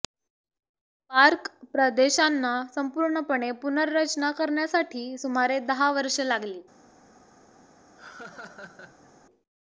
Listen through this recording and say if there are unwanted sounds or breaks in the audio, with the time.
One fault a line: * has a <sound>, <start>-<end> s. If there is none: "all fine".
* has a laugh, 8.0-9.1 s